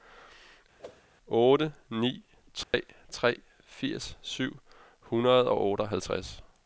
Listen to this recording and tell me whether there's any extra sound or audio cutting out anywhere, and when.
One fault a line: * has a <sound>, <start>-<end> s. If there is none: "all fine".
* has a whoosh, 0.8-1.1 s
* has a dropout, 2.6-2.7 s